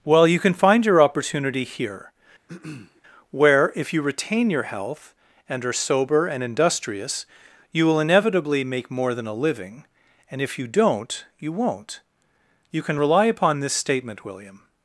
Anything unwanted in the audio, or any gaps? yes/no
yes